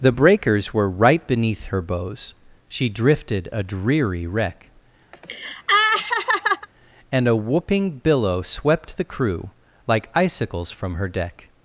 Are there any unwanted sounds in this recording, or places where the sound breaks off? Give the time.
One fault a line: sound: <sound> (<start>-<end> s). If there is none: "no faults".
sound: laugh (5.1-6.7 s)